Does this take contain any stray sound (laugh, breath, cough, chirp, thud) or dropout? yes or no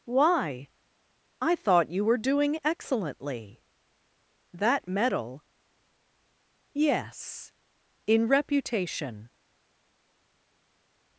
no